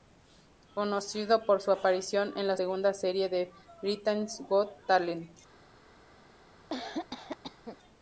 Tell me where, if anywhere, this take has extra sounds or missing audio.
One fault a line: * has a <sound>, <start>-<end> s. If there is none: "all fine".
* has a cough, 6.7-7.8 s